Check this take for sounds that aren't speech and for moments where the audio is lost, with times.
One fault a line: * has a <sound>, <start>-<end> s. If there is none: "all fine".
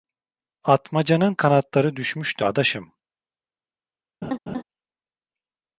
* has a laugh, 4.2-4.6 s